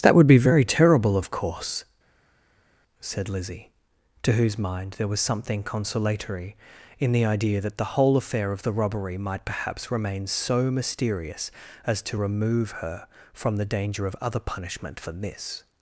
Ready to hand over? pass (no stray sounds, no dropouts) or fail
pass